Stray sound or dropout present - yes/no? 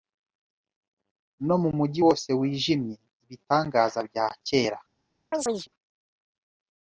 yes